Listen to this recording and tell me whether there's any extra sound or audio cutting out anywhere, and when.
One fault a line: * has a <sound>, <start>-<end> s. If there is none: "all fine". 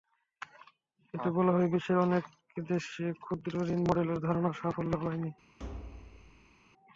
* has a thud, 5.6-6.5 s